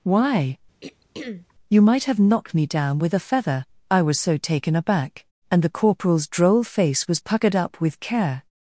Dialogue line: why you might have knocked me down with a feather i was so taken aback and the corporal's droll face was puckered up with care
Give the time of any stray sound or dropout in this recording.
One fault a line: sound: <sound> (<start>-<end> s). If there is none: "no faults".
sound: throat clearing (0.8-1.5 s)